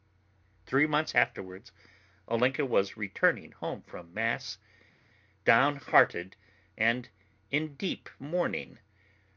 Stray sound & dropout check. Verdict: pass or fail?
pass